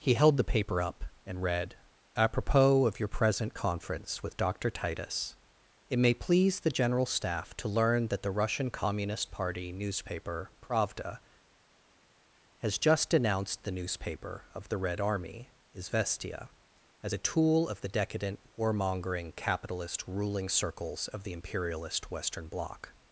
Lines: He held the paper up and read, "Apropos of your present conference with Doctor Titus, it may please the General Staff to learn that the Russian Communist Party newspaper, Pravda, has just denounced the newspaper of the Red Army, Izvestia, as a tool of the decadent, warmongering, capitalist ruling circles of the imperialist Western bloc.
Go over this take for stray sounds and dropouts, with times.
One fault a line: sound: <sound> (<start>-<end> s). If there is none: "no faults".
no faults